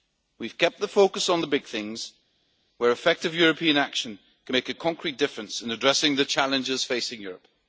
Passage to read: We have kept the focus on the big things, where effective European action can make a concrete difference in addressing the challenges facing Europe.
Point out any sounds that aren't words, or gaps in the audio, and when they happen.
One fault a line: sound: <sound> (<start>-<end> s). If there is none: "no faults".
no faults